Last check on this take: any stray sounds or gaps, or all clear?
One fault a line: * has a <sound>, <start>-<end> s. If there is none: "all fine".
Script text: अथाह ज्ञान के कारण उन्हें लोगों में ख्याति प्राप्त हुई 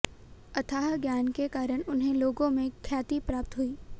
all fine